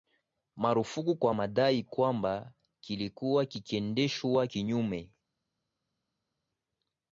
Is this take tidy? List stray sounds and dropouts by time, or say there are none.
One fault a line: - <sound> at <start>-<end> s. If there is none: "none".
none